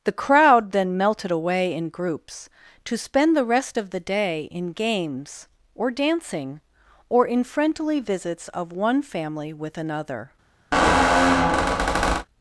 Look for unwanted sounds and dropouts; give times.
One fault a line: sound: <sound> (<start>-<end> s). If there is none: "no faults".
sound: squeak (10.7-12.3 s)